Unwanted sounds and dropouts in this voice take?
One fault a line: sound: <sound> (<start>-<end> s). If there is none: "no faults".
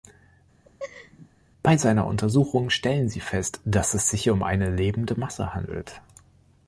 sound: laugh (0.6-1.3 s)